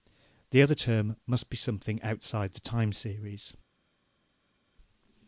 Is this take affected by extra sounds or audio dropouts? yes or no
no